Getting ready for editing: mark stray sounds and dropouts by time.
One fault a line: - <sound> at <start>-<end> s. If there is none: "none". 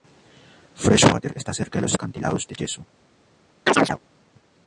- chirp at 3.7-4.0 s